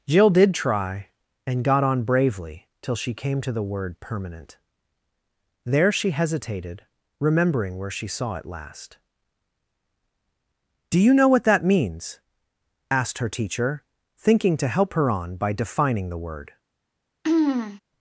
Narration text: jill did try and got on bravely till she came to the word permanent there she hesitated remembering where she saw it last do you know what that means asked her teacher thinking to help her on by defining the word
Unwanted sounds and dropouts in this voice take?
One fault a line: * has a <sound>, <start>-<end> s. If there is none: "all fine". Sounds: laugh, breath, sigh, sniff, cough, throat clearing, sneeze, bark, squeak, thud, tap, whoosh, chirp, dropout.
* has a throat clearing, 17.2-17.8 s